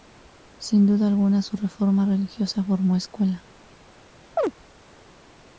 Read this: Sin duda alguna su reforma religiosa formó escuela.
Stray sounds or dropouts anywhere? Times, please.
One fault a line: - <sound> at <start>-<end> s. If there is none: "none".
- chirp at 4.4-4.5 s